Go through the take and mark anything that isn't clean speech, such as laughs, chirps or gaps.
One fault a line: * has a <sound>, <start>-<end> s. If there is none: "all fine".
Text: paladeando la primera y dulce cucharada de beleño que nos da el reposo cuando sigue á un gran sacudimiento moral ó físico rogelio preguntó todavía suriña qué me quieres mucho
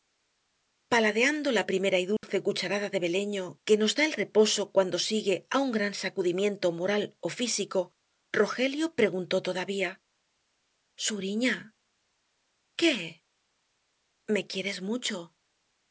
* has a dropout, 2.2-2.2 s